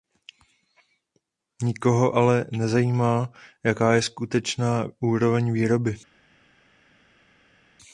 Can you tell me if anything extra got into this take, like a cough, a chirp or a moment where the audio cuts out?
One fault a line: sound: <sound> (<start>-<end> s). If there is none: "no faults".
no faults